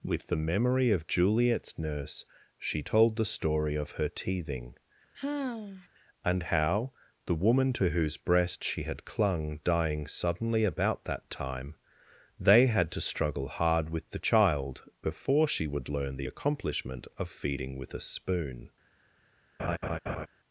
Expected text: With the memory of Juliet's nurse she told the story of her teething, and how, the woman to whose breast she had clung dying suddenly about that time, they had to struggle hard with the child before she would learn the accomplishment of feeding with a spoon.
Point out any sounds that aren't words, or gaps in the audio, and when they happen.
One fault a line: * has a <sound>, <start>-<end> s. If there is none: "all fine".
* has a sigh, 5.1-5.9 s
* has a laugh, 19.6-20.3 s